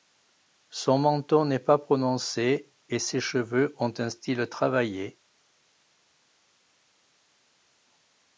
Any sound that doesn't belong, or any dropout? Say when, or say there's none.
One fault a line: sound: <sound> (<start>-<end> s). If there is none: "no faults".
no faults